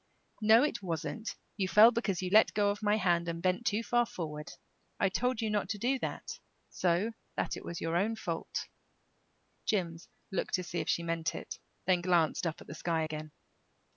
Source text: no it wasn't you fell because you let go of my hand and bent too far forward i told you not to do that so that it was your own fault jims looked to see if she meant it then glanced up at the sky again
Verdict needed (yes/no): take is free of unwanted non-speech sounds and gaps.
yes